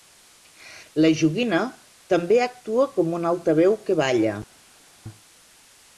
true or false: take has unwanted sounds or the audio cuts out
false